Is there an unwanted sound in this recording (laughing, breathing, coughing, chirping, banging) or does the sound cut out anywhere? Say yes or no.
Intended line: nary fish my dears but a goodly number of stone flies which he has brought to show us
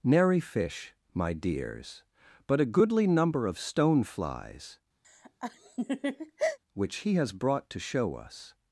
yes